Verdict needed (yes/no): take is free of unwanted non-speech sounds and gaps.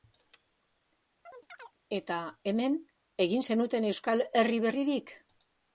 no